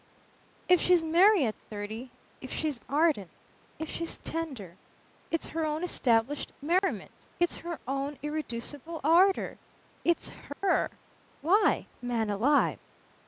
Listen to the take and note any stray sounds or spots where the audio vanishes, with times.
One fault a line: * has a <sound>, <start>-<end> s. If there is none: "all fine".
* has a dropout, 6.8-6.8 s
* has a dropout, 10.5-10.6 s